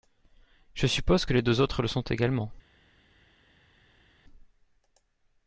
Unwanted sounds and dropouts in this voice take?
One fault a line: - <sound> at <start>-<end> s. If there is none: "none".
none